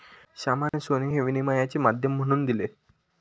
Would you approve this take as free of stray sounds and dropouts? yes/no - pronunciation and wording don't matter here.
no